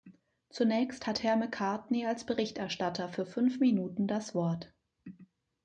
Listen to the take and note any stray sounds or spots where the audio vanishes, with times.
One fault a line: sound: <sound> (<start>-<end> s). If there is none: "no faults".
no faults